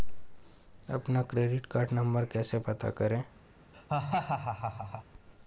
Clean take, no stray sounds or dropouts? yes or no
no